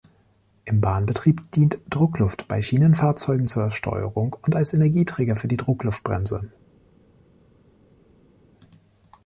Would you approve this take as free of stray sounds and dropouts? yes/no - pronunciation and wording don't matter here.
yes